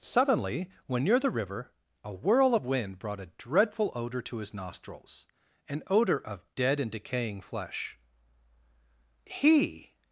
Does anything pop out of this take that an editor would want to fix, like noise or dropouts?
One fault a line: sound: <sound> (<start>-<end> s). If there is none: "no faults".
no faults